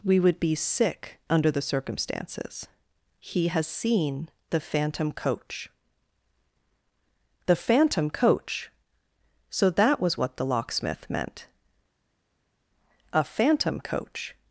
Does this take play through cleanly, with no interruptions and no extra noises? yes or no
yes